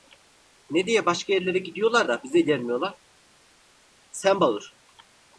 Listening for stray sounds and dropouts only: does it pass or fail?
pass